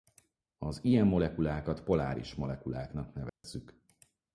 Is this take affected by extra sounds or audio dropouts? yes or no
yes